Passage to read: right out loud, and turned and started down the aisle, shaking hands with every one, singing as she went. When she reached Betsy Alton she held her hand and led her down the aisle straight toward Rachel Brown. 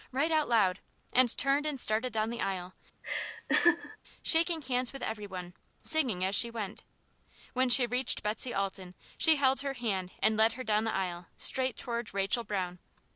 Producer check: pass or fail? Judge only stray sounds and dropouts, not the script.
fail